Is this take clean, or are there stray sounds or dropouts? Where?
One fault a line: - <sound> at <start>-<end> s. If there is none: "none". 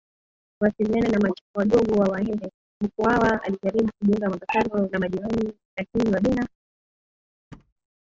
- thud at 7.5-7.7 s